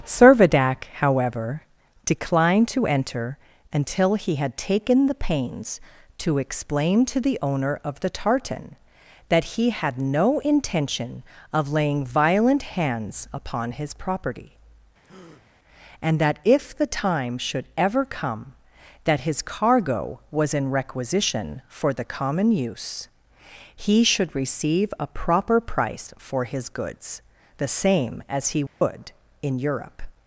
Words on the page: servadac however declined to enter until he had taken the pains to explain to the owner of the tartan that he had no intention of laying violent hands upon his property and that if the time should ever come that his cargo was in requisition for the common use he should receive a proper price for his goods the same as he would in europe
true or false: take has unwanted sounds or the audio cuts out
true